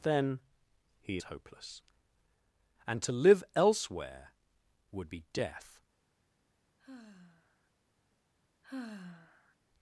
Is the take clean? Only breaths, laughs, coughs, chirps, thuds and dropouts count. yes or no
no